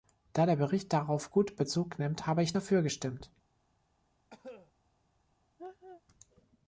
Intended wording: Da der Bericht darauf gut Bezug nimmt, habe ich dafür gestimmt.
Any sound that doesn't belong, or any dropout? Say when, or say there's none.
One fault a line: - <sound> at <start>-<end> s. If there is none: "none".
- cough at 4.3-4.7 s
- laugh at 5.6-6.0 s